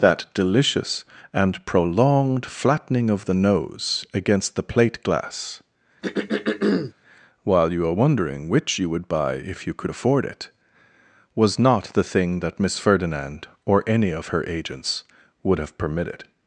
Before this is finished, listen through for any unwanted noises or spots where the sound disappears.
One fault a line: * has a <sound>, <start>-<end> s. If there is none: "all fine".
* has a throat clearing, 6.0-6.9 s